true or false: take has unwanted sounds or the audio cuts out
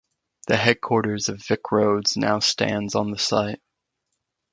false